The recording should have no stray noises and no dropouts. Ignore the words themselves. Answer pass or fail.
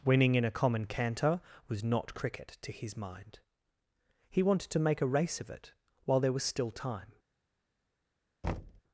fail